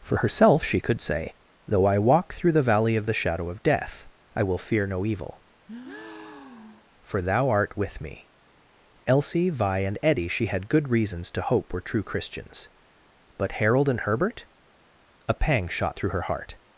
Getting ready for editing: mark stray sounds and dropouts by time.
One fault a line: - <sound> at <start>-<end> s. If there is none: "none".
- breath at 5.7-6.9 s